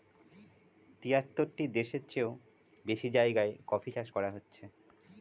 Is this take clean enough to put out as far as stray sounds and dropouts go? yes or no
yes